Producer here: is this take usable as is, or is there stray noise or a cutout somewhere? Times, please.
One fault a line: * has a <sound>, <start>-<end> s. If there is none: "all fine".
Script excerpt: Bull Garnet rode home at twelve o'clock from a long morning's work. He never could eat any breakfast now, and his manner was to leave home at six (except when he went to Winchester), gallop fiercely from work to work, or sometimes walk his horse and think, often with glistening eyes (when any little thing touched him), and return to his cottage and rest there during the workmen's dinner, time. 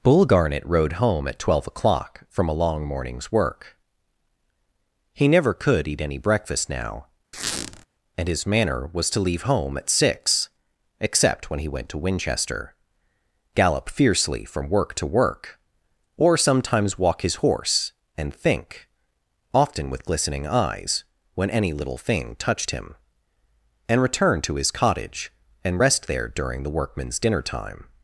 * has a squeak, 7.3-7.9 s